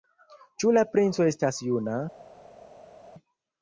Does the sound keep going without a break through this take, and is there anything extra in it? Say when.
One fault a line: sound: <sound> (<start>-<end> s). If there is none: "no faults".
no faults